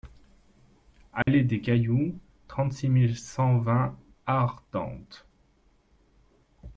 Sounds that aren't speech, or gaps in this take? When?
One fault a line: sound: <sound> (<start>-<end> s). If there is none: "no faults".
sound: dropout (1.2-1.3 s)